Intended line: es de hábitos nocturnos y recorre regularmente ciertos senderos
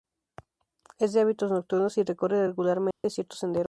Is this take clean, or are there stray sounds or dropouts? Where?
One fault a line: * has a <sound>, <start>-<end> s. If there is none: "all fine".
* has a dropout, 2.9-3.0 s